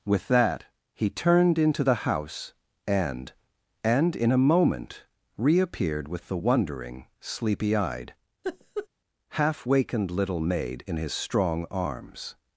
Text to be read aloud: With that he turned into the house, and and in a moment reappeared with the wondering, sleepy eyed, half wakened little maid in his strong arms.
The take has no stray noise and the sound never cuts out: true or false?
false